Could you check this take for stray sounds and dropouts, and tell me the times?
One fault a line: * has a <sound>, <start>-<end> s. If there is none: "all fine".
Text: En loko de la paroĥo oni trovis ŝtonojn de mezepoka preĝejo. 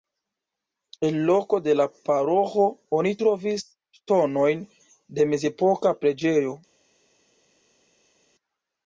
all fine